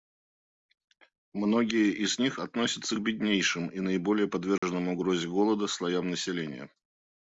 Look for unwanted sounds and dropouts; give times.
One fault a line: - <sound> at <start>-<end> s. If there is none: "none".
- dropout at 4.6-4.6 s